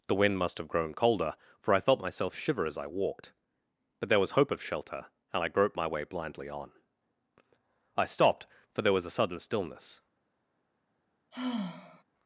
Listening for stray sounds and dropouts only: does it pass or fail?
fail